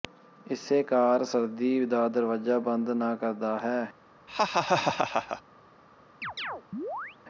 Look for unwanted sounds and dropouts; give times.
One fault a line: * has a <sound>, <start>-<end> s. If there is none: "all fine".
* has a laugh, 4.3-5.4 s
* has a chirp, 6.2-7.2 s